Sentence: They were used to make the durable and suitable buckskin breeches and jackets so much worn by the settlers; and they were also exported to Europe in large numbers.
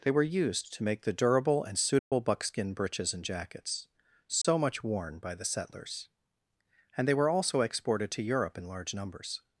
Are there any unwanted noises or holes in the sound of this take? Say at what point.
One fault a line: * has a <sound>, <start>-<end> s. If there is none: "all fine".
* has a dropout, 2.0-2.1 s
* has a dropout, 4.4-4.4 s